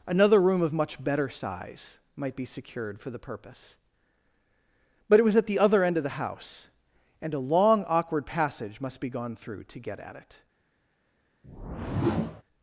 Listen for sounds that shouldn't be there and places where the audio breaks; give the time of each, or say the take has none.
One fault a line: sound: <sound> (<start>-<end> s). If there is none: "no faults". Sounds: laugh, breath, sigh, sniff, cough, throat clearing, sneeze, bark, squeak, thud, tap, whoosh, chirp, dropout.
sound: whoosh (11.4-12.4 s)